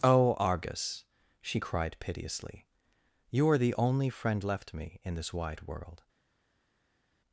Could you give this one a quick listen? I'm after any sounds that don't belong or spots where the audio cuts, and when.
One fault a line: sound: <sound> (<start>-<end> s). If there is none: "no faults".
no faults